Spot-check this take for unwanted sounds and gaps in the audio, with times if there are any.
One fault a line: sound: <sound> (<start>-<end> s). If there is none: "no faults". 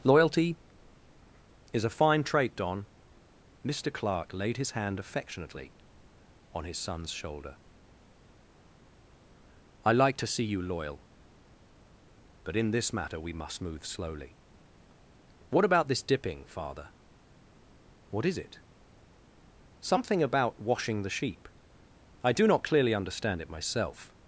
no faults